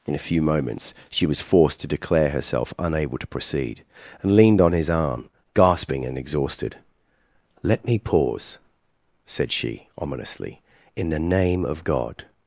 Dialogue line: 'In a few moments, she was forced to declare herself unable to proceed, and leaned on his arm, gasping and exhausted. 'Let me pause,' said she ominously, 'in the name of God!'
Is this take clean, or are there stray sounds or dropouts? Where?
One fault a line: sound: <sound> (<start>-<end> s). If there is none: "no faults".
no faults